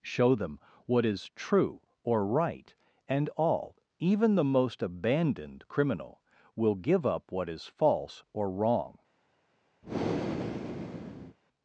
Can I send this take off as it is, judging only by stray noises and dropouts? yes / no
no